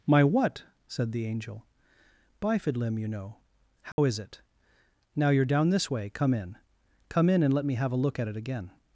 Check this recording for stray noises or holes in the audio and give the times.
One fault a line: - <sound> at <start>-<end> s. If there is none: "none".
- dropout at 3.9-4.0 s